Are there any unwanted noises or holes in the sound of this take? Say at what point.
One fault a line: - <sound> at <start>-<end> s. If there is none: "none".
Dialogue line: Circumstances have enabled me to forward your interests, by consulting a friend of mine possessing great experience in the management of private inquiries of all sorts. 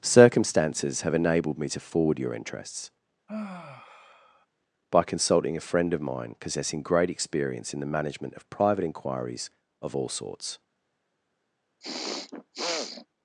- sigh at 3.3-4.5 s
- throat clearing at 11.8-13.1 s